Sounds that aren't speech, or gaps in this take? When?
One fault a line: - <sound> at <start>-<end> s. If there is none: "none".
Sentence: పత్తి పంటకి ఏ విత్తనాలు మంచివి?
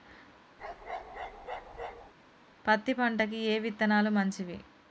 - bark at 0.6-2.1 s